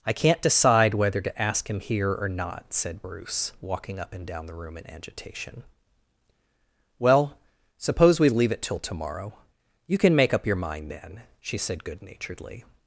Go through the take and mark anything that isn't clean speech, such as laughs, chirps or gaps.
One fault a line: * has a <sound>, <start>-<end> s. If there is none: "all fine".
all fine